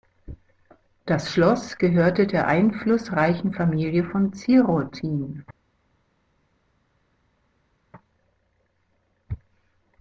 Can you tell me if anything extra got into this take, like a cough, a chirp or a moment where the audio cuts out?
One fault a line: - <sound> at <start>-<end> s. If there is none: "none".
none